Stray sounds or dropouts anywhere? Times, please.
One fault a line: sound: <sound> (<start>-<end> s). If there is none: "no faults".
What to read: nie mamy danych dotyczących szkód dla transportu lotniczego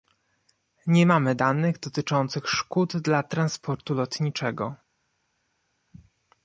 no faults